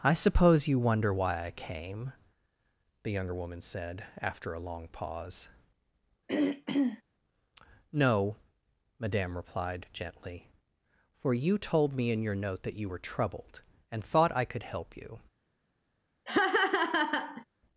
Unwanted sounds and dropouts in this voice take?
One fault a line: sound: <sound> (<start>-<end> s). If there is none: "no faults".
sound: throat clearing (6.3-7.0 s)
sound: laugh (16.3-17.4 s)